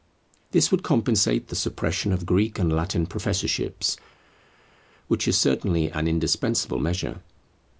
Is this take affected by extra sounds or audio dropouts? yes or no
no